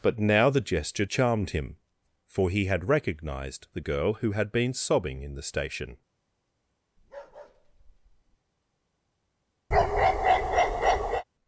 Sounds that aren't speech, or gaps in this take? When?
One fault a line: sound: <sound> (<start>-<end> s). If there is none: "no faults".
sound: bark (7.0-8.4 s)
sound: bark (9.7-11.2 s)